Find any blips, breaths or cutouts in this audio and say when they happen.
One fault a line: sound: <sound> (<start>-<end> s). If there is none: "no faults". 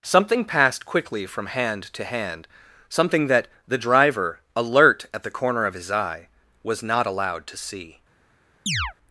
sound: chirp (8.7-8.9 s)